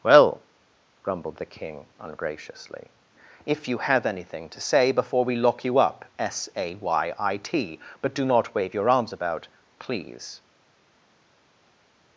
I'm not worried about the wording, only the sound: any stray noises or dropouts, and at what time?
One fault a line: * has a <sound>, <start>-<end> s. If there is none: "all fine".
all fine